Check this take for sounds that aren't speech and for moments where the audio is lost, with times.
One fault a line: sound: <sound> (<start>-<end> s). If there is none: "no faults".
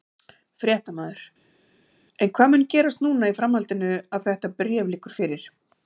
no faults